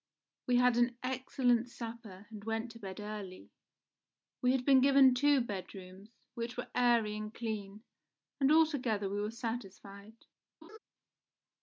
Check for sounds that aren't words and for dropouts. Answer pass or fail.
fail